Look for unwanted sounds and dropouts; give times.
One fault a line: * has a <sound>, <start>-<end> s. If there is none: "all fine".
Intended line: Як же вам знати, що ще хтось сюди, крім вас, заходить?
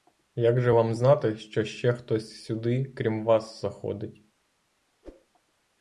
* has a whoosh, 5.0-5.3 s